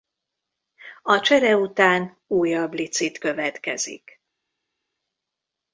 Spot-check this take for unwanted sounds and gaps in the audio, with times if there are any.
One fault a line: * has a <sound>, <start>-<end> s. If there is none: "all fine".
all fine